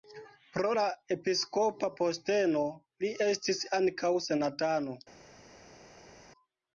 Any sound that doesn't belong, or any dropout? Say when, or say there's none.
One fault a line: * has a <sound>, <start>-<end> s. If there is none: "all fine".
all fine